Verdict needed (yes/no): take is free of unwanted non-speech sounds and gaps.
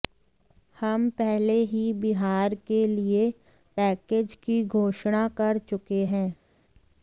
yes